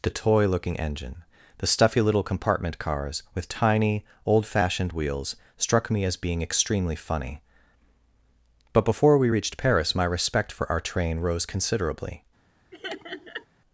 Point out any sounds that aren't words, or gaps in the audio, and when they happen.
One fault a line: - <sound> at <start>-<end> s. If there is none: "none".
- laugh at 12.7-13.5 s